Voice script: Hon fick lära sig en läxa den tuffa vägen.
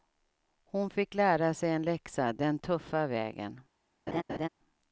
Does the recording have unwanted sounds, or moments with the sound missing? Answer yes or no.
yes